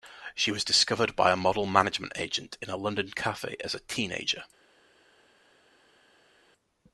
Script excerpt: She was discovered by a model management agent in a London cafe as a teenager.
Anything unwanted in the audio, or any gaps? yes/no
no